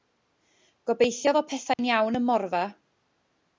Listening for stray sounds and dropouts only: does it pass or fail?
fail